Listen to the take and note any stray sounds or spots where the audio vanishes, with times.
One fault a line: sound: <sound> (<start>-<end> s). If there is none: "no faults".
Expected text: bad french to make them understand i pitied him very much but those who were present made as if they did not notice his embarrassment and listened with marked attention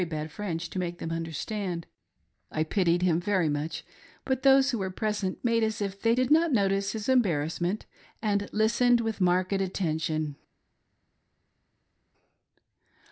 no faults